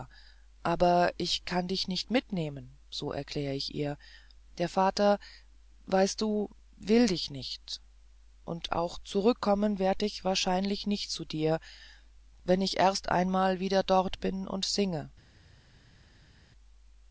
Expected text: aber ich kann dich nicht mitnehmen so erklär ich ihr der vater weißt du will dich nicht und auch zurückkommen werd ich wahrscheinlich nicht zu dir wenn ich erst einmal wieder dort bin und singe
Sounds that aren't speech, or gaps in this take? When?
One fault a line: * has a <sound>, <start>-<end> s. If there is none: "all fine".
all fine